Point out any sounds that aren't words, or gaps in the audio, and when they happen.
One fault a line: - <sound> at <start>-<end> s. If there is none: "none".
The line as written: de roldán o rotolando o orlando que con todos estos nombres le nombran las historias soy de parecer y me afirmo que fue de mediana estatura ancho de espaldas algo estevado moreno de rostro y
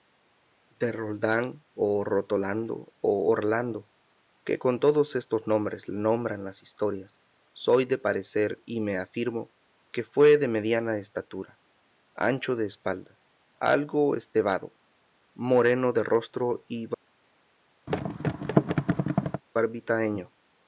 - thud at 17.9-19.4 s